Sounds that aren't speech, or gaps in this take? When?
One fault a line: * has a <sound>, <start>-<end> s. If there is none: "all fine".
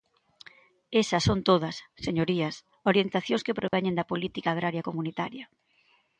* has a dropout, 3.7-3.7 s